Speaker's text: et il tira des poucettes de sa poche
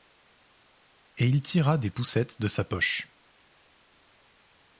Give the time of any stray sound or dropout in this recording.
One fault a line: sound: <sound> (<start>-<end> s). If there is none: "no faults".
no faults